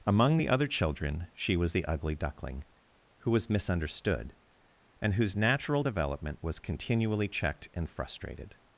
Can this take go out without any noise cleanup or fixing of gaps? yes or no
yes